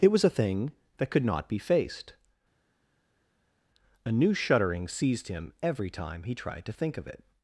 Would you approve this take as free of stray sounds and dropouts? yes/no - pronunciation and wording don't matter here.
yes